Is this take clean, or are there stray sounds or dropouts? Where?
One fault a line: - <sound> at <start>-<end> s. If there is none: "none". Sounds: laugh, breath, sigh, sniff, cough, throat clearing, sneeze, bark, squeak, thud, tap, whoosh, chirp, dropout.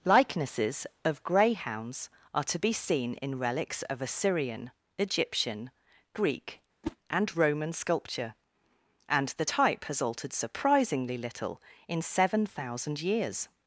- whoosh at 6.8-7.0 s